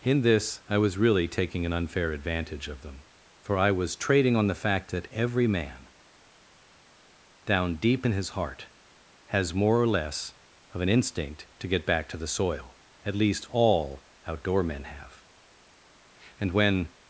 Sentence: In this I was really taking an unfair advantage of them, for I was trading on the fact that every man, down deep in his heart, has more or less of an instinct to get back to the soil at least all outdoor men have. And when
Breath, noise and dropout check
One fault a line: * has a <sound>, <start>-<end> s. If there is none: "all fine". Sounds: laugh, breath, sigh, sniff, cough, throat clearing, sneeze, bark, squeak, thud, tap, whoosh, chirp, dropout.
all fine